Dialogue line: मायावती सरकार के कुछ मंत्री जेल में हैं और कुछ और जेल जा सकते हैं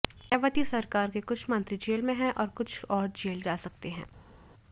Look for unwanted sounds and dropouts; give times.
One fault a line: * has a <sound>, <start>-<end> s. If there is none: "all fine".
all fine